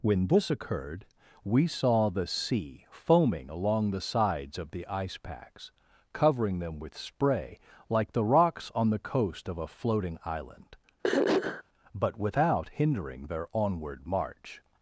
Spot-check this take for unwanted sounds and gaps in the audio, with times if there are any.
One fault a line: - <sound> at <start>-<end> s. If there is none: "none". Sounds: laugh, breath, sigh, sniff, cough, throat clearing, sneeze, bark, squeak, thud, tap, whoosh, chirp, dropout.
- throat clearing at 11.0-11.6 s